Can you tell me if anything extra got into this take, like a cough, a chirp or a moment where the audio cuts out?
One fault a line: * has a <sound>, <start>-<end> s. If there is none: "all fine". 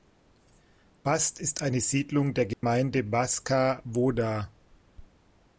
* has a dropout, 2.5-2.6 s